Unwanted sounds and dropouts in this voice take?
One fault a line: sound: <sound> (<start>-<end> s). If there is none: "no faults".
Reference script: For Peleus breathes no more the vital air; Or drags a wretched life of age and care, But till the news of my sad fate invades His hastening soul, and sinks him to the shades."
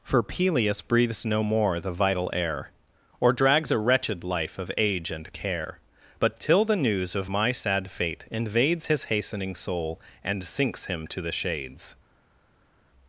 no faults